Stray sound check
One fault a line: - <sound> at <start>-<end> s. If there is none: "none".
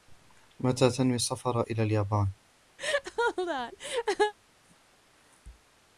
- laugh at 2.8-4.3 s